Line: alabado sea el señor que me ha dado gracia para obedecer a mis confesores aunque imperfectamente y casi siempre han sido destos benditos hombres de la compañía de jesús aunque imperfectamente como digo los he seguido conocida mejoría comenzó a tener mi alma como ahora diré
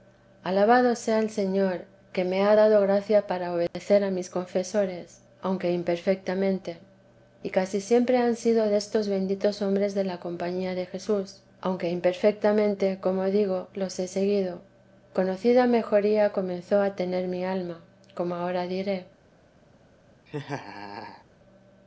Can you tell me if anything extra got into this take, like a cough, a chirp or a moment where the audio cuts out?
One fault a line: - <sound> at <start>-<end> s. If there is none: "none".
- dropout at 3.7-3.7 s
- laugh at 20.3-21.2 s